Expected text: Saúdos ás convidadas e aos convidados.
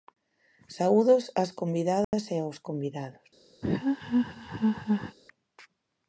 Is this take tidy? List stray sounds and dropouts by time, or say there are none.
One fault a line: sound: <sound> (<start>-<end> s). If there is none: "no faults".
sound: dropout (2.0-2.1 s)
sound: laugh (3.6-5.2 s)